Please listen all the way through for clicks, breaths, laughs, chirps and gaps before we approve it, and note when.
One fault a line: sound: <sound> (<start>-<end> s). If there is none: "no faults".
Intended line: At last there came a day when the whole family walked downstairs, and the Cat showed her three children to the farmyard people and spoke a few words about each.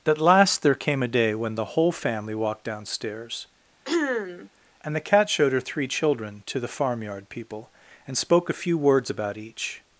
sound: throat clearing (3.9-4.5 s)